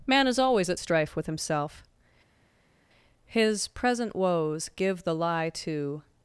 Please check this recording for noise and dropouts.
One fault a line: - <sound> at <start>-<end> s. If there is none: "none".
none